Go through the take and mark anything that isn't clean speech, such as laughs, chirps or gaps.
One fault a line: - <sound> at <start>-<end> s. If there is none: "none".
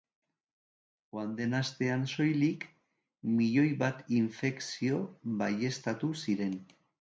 none